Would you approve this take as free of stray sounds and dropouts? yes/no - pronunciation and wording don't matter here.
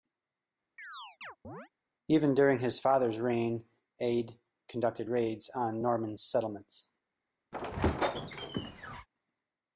no